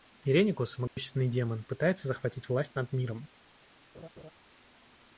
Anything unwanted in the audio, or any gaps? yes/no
yes